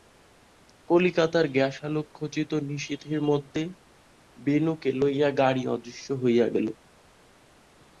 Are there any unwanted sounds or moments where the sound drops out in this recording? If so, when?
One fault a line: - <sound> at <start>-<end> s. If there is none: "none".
none